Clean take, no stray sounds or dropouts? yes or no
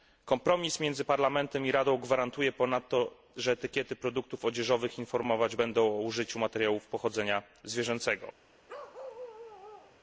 no